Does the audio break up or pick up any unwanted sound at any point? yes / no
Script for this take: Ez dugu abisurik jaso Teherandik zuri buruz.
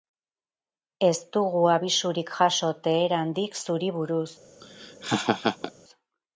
yes